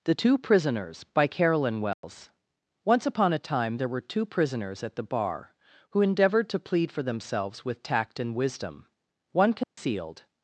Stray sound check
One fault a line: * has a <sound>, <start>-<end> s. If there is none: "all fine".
* has a dropout, 1.9-2.0 s
* has a dropout, 9.6-9.8 s